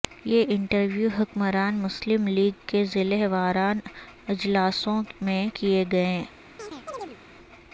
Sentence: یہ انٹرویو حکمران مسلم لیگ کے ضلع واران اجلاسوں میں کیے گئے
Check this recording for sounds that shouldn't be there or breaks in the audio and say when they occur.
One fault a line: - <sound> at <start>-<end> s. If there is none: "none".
- chirp at 6.6-7.2 s